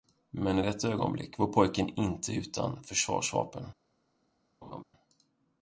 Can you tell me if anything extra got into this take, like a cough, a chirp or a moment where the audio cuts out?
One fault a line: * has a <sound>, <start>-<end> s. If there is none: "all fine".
* has a laugh, 4.6-4.8 s